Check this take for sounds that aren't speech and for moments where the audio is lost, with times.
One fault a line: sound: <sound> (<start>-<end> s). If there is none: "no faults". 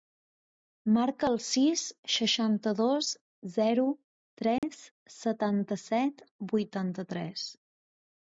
sound: dropout (4.6-4.6 s)